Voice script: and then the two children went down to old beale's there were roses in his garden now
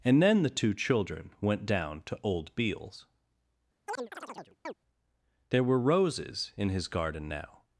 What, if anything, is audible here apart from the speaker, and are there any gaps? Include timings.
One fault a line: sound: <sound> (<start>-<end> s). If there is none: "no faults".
sound: chirp (3.9-4.7 s)